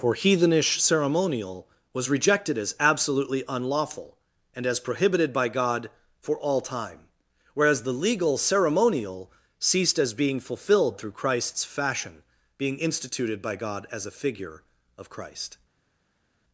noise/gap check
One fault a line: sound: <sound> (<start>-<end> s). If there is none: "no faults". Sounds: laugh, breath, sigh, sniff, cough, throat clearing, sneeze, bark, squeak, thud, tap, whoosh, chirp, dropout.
no faults